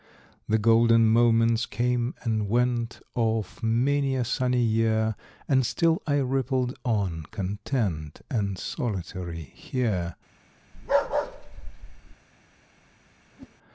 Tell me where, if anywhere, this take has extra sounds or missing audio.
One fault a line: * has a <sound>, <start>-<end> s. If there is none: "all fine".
* has a bark, 10.7-12.2 s
* has a whoosh, 13.3-13.6 s